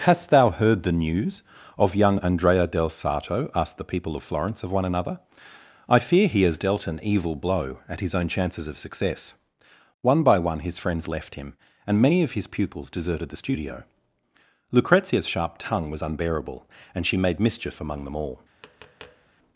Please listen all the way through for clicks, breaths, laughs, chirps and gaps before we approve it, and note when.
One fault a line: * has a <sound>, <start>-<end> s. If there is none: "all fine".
* has a tap, 18.6-19.3 s